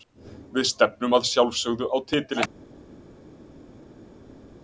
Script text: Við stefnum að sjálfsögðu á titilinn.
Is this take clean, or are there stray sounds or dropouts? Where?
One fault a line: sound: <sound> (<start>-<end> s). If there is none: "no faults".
no faults